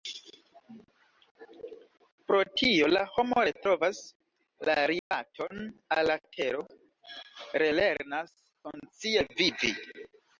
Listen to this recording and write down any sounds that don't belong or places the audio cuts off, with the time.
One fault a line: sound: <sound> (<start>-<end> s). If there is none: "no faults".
sound: dropout (5.0-5.1 s)